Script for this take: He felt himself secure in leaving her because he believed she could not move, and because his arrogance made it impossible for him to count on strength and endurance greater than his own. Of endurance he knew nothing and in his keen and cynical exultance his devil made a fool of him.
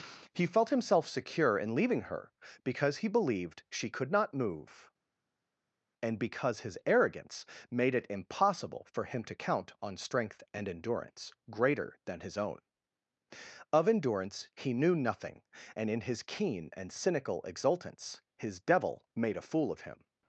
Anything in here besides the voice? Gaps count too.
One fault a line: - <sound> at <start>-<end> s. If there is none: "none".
none